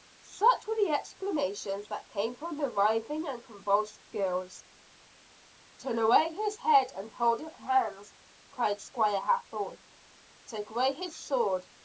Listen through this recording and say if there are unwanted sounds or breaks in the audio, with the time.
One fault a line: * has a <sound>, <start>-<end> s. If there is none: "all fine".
all fine